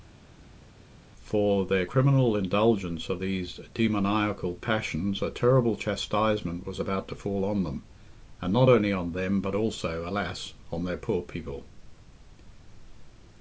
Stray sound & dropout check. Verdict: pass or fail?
pass